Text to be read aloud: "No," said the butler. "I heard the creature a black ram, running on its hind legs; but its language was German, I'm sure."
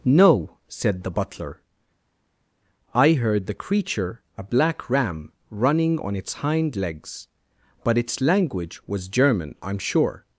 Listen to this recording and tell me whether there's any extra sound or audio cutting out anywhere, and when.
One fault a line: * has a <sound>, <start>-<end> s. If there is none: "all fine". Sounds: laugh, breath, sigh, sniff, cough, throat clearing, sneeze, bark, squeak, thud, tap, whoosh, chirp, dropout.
all fine